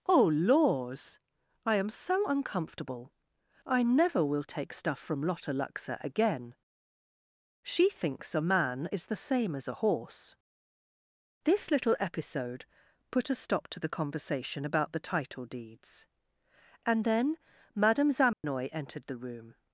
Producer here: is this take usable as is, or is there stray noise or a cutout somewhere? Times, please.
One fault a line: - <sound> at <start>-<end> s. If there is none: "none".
- dropout at 18.3-18.4 s